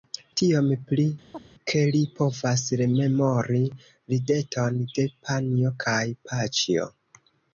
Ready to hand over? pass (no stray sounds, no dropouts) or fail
fail